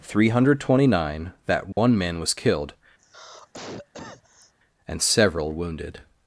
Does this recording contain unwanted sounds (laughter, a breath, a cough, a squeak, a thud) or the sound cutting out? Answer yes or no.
yes